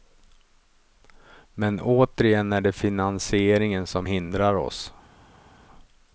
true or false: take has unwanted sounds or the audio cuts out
false